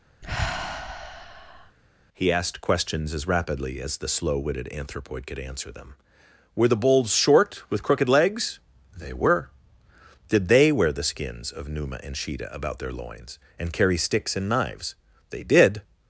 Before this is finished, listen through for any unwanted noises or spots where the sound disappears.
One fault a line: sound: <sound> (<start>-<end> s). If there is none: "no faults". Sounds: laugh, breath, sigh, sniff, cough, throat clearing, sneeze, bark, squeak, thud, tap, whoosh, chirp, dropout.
sound: sigh (0.2-1.8 s)